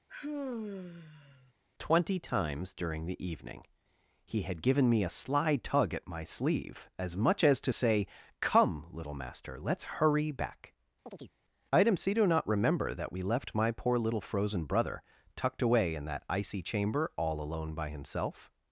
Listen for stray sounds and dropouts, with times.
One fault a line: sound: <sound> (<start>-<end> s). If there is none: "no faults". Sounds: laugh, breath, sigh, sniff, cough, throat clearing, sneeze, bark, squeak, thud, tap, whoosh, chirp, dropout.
sound: sigh (0.1-1.5 s)
sound: chirp (11.1-11.3 s)